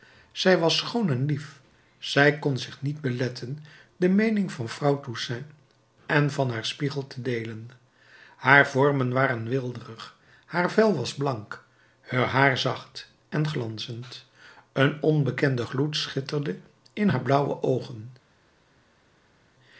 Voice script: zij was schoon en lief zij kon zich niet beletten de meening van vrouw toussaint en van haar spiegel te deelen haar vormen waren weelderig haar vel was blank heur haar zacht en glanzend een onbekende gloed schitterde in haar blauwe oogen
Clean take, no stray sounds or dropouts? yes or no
yes